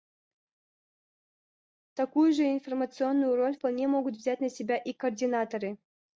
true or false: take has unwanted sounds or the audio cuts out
false